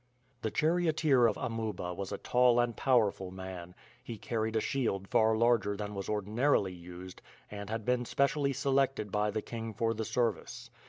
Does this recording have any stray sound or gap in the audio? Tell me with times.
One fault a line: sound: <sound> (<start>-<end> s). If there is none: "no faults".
no faults